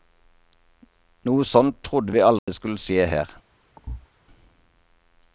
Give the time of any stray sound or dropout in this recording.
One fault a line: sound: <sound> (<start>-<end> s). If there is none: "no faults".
sound: dropout (2.4-2.5 s)
sound: thud (3.8-4.1 s)